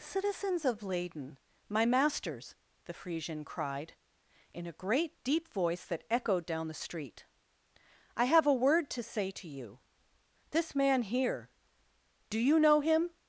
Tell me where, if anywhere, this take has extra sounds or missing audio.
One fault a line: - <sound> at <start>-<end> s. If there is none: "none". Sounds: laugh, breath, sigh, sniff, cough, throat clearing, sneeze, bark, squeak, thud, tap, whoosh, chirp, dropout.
none